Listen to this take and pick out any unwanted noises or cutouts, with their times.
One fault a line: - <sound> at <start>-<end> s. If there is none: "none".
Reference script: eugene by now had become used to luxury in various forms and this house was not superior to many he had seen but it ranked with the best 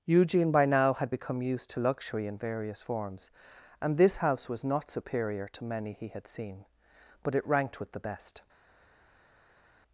none